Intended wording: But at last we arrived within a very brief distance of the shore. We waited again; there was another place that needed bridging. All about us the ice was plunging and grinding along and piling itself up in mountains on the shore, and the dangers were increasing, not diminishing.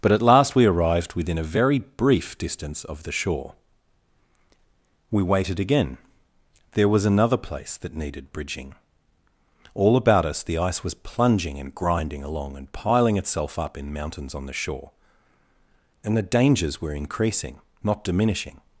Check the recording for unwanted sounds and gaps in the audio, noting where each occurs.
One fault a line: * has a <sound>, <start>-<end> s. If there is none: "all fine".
all fine